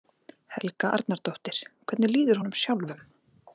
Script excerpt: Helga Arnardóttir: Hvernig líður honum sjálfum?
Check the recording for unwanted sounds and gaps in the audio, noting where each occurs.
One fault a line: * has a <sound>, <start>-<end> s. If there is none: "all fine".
all fine